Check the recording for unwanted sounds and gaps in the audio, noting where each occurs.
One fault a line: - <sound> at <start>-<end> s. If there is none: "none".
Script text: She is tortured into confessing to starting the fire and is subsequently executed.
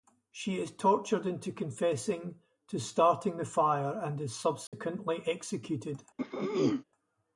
- dropout at 4.7-4.7 s
- throat clearing at 6.2-6.8 s